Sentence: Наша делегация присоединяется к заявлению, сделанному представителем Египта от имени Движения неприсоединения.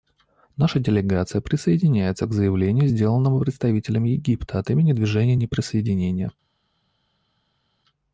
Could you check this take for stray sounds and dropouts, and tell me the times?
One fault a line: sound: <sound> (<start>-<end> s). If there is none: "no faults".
no faults